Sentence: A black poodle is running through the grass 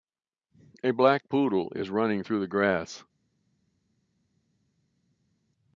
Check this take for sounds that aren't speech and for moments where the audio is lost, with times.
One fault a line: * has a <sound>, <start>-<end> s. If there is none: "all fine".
all fine